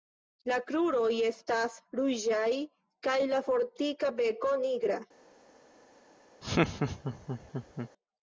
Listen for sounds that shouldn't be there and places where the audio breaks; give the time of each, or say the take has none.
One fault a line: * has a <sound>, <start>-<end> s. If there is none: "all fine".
* has a laugh, 6.4-7.9 s